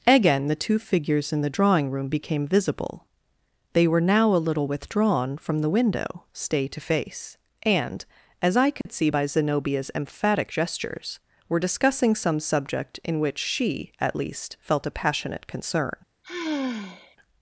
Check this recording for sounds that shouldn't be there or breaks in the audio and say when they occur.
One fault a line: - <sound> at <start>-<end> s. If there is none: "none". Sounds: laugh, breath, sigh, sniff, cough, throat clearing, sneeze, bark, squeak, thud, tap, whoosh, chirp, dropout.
- dropout at 8.8-8.9 s
- sigh at 16.2-17.2 s